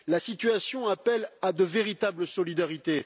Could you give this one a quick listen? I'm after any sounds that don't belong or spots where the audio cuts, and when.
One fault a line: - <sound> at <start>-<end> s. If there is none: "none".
none